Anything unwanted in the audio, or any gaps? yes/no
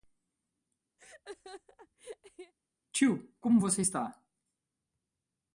yes